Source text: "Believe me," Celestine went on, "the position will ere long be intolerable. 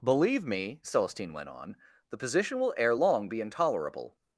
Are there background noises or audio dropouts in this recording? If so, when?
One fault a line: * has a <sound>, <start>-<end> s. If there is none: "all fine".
all fine